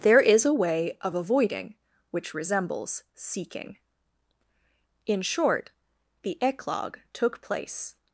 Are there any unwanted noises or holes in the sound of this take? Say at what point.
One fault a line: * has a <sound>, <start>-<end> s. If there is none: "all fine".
all fine